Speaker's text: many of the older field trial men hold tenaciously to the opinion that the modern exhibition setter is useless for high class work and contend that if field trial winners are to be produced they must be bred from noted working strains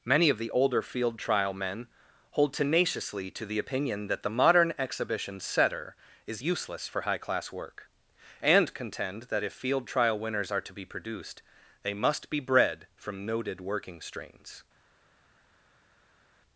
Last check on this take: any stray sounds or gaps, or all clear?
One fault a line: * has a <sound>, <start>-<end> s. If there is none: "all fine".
all fine